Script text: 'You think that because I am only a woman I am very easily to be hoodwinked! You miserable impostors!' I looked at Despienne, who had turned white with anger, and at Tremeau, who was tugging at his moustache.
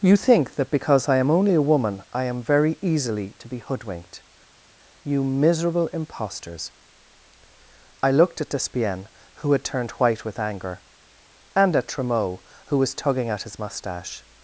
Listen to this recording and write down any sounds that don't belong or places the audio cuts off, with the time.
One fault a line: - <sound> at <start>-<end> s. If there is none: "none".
none